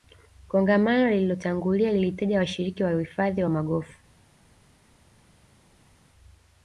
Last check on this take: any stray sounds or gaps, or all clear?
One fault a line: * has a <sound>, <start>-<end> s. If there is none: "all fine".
all fine